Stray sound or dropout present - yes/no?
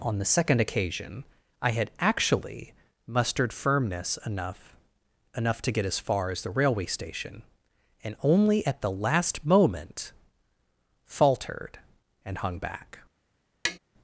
yes